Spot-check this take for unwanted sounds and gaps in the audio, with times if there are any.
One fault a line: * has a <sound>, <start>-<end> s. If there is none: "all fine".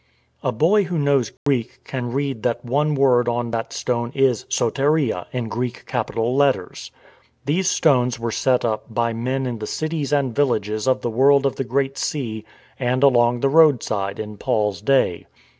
* has a dropout, 1.4-1.5 s